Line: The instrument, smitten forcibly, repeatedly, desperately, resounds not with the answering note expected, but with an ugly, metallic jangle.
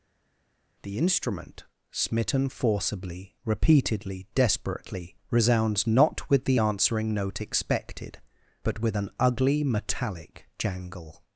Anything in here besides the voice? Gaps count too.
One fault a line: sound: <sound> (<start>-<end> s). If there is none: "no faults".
no faults